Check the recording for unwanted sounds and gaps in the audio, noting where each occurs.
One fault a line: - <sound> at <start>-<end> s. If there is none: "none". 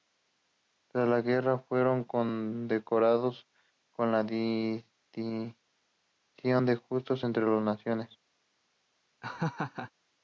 - laugh at 9.2-9.9 s